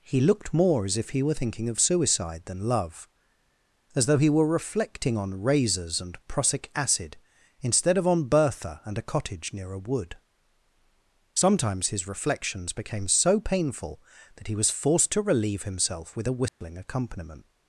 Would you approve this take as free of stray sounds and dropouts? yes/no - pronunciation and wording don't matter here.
no